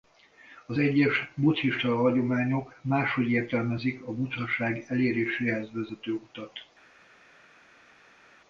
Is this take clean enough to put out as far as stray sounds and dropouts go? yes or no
yes